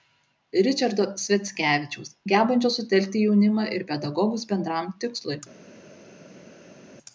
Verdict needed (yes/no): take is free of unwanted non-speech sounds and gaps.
yes